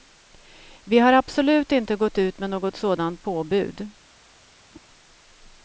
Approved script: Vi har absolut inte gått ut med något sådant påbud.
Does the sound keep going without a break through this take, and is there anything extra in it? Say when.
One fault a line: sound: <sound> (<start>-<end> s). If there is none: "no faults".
sound: whoosh (4.7-4.9 s)